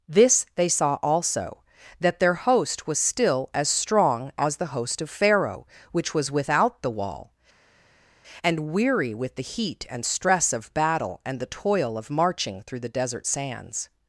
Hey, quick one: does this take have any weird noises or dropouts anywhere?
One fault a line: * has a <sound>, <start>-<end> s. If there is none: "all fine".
all fine